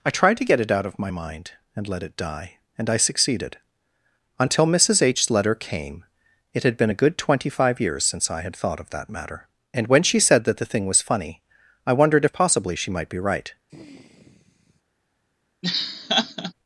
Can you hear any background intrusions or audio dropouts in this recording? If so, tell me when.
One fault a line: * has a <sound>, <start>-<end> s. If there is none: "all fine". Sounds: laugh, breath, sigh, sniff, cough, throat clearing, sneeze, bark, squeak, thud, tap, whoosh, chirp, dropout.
* has a sigh, 13.7-14.8 s
* has a laugh, 15.6-16.5 s